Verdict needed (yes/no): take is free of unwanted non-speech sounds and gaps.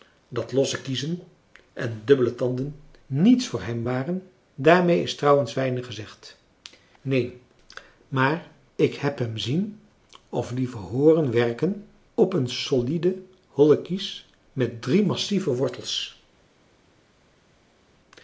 yes